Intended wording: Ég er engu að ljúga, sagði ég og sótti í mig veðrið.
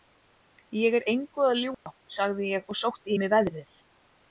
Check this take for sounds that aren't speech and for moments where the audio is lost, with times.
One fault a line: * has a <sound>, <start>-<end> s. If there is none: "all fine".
* has a dropout, 1.7-1.9 s